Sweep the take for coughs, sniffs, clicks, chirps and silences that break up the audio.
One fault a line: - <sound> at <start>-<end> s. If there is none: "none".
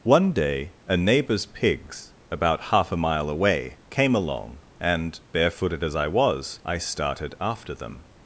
none